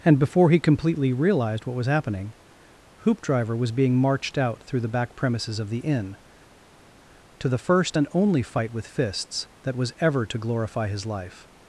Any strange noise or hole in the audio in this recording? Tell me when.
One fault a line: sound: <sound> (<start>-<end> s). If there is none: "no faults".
no faults